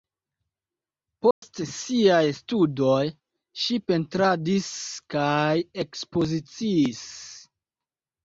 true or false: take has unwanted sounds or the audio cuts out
true